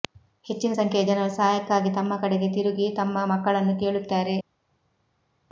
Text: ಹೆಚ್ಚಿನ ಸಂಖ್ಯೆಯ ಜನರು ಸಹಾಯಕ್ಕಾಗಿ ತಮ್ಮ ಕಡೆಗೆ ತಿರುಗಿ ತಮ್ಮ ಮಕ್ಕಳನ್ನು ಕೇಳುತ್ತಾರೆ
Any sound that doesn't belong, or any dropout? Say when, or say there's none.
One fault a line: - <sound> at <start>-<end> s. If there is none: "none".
none